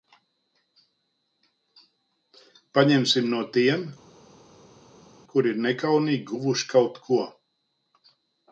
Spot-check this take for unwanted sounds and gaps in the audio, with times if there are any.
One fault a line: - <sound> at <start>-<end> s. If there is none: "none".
none